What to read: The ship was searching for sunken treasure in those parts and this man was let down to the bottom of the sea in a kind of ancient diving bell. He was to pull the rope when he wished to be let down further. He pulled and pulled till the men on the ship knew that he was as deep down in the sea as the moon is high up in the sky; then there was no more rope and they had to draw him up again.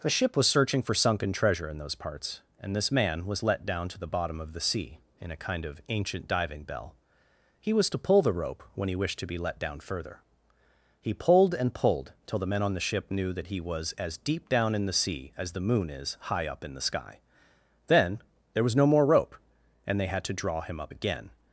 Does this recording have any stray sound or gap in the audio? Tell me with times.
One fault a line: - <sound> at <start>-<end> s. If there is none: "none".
none